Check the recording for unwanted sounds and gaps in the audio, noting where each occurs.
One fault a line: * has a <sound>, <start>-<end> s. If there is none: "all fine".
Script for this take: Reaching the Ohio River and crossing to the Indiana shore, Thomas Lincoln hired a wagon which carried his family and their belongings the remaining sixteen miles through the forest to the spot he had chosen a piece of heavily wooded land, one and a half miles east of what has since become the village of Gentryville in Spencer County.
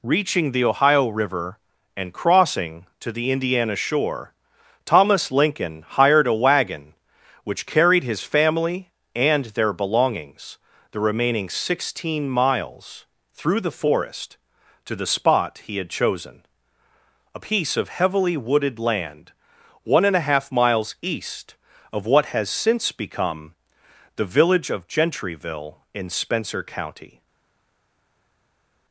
all fine